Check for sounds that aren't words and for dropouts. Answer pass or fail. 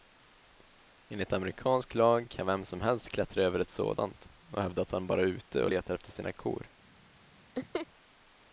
fail